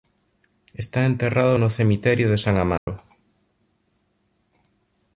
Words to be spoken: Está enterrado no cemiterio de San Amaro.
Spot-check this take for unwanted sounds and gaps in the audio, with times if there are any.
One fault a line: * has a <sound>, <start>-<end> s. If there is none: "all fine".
* has a dropout, 2.8-2.9 s